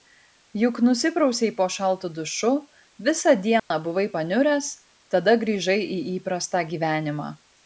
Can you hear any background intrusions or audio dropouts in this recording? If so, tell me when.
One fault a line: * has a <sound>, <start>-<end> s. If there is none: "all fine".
* has a dropout, 3.6-3.7 s